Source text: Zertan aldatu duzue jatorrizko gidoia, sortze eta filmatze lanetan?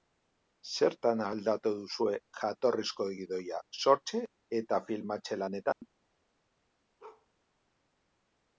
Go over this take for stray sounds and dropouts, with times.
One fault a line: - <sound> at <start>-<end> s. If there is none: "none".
- dropout at 5.7-5.8 s
- bark at 7.0-7.3 s